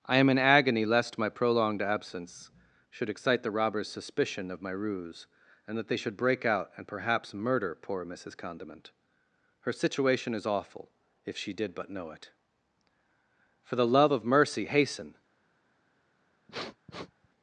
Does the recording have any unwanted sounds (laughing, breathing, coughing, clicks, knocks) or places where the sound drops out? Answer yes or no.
yes